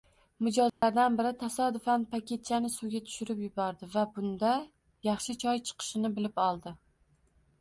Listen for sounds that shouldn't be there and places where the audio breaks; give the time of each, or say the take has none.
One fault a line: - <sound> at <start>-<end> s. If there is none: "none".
- dropout at 0.7-0.8 s